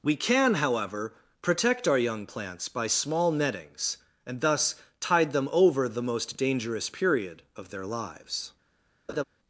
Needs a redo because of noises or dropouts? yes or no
yes